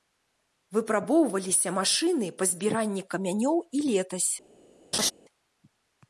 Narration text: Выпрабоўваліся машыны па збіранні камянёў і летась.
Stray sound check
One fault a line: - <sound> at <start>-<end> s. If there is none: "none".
- laugh at 4.9-5.1 s